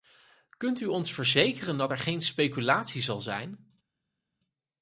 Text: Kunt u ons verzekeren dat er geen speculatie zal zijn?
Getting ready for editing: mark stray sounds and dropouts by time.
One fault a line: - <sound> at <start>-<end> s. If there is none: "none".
none